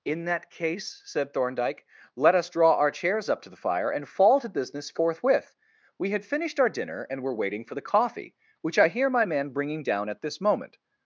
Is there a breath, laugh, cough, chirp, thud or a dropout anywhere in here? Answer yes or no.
no